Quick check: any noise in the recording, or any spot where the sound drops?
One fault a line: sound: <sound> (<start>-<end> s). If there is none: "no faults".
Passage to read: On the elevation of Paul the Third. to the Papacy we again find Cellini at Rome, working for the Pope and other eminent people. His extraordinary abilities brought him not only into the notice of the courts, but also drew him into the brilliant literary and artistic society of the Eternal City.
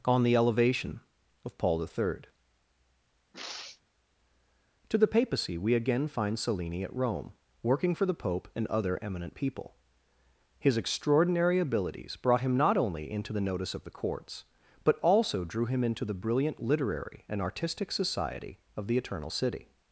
sound: sniff (3.3-3.8 s)